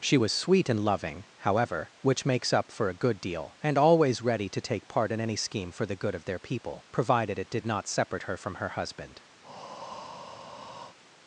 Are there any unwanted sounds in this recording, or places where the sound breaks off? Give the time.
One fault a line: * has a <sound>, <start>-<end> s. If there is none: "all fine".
* has a breath, 9.4-11.0 s